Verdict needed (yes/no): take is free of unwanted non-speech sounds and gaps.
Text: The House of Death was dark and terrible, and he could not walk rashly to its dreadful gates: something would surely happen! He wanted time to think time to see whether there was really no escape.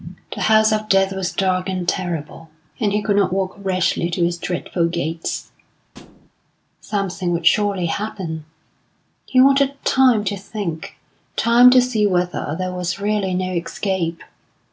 no